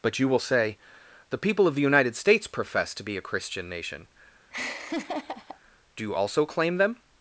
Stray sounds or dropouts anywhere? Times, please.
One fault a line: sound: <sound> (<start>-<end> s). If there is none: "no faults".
sound: laugh (4.5-5.6 s)